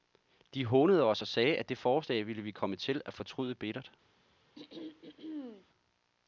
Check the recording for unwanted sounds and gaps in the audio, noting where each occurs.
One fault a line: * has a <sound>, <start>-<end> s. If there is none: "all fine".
* has a throat clearing, 4.6-5.7 s